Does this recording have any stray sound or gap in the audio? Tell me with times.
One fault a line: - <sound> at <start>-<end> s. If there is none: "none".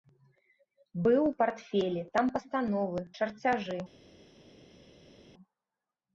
none